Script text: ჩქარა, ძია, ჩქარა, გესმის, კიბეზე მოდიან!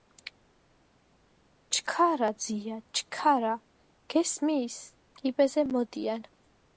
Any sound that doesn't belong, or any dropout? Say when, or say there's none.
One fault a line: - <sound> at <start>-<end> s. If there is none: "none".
none